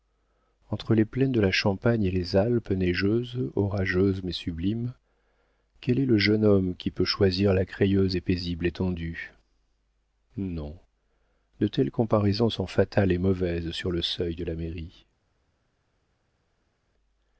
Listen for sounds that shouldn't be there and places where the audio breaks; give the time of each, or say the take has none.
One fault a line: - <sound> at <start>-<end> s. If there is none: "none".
none